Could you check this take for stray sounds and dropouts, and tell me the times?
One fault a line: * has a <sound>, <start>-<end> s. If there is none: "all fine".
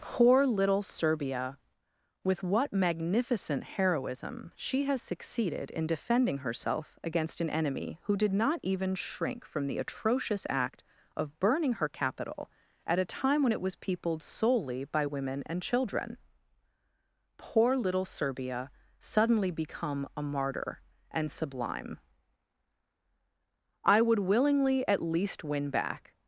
all fine